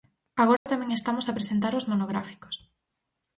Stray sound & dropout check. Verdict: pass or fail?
fail